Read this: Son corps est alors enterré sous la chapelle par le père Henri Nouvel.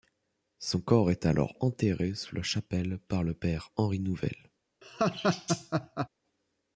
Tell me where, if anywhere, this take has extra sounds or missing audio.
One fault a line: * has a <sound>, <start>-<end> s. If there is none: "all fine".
* has a laugh, 4.8-6.1 s